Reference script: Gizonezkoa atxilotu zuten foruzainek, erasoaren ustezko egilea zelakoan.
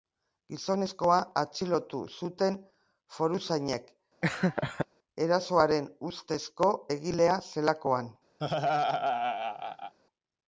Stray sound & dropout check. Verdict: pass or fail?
fail